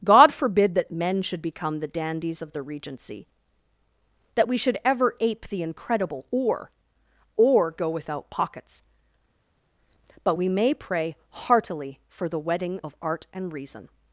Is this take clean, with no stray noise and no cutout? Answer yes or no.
yes